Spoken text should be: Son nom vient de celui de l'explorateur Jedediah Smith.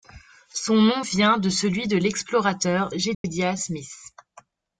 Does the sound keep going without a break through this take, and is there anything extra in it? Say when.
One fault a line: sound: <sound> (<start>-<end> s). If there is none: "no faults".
sound: dropout (3.1-3.2 s)